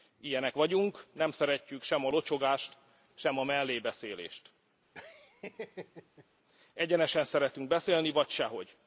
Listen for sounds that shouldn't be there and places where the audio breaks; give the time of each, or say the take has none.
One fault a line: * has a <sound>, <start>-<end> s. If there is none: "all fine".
* has a laugh, 4.9-6.3 s